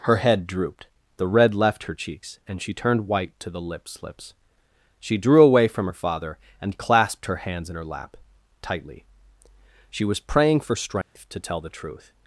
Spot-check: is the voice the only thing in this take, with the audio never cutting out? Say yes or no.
no